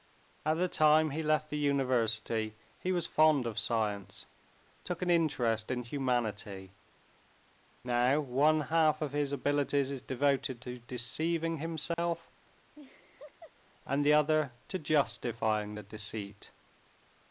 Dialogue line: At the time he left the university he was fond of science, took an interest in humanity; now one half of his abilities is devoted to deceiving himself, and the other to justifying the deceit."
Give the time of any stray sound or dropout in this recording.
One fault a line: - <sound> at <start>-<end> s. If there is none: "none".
- dropout at 11.9-12.0 s
- laugh at 12.7-13.5 s